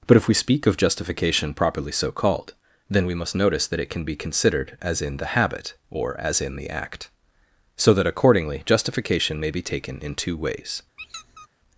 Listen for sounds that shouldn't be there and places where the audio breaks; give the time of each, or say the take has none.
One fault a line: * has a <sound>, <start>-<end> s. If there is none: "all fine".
* has a squeak, 11.0-11.5 s